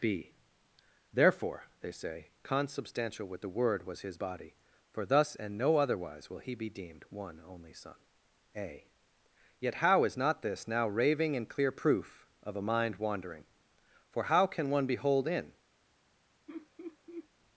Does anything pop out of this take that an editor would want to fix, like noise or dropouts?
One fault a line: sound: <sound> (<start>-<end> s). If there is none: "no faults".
sound: laugh (16.5-17.3 s)